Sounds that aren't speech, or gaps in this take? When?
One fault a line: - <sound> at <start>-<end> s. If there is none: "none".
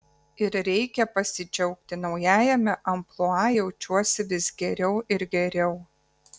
none